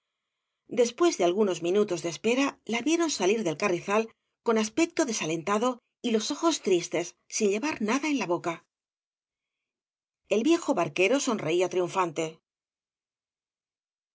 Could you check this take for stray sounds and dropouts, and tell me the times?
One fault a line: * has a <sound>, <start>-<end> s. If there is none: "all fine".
all fine